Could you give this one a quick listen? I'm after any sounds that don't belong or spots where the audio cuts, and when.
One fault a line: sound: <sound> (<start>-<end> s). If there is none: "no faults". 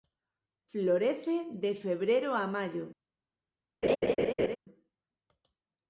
sound: laugh (3.8-4.6 s)